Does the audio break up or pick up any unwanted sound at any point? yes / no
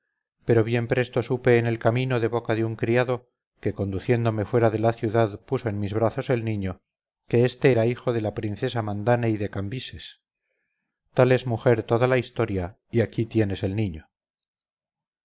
no